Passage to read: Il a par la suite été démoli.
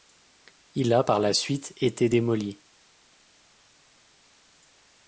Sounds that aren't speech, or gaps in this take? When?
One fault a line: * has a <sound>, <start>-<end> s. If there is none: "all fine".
all fine